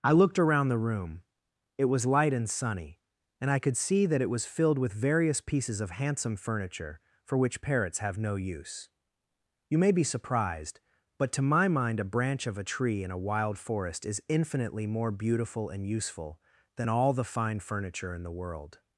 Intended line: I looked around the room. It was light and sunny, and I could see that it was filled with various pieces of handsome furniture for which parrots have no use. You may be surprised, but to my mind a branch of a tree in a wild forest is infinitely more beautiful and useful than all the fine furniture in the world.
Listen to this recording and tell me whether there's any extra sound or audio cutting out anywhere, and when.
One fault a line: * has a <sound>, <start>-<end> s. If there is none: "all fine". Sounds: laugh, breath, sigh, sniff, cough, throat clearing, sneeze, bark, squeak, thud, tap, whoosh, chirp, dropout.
all fine